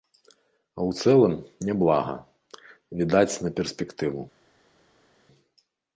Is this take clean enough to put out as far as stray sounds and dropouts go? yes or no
yes